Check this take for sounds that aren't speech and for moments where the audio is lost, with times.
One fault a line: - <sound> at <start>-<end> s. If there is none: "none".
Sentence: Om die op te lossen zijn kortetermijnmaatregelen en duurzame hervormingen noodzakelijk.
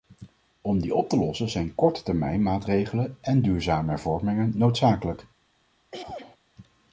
- throat clearing at 5.9-6.4 s